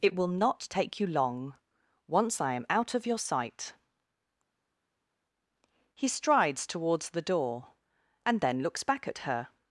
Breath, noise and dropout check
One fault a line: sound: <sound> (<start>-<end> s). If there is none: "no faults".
no faults